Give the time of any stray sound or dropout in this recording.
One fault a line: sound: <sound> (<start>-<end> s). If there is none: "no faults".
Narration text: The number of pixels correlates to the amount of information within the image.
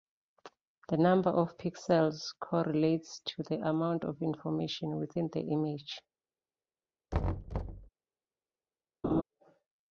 sound: thud (7.1-7.9 s)
sound: laugh (9.0-9.2 s)